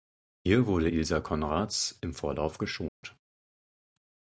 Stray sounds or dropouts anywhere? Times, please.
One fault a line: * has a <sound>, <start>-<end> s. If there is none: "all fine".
* has a dropout, 2.9-3.0 s